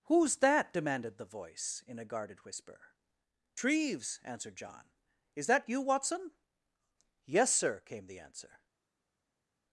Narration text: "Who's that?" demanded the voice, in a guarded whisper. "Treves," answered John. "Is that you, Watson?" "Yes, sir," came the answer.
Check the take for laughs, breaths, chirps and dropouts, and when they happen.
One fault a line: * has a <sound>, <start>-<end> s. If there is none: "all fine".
all fine